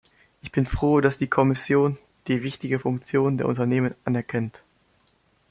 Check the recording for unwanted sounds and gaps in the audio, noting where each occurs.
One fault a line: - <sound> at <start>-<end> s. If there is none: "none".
none